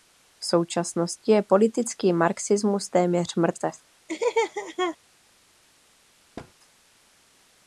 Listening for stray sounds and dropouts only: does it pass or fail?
fail